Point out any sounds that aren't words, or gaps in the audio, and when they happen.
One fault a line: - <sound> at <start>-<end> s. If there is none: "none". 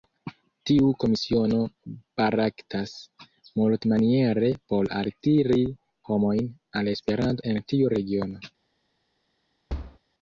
- thud at 9.7-10.0 s